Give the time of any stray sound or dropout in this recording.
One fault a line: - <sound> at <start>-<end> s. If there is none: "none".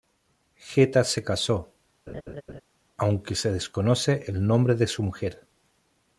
- laugh at 2.1-2.6 s